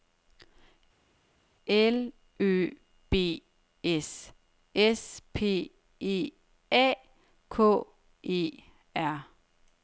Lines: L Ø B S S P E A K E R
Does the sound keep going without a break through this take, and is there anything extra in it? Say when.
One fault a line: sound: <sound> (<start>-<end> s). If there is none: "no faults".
no faults